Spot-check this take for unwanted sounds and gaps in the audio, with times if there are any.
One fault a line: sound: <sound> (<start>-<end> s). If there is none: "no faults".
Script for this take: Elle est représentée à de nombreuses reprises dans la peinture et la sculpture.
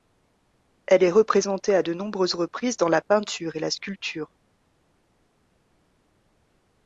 no faults